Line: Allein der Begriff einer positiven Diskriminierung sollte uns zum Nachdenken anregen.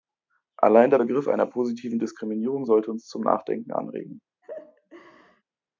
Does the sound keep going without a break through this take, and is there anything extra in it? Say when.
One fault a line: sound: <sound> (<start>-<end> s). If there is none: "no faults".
sound: laugh (4.4-5.4 s)